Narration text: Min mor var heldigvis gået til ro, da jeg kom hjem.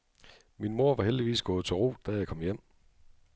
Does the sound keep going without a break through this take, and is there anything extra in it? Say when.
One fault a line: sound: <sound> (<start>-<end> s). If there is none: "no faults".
no faults